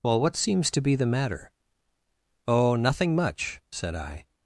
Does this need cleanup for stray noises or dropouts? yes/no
no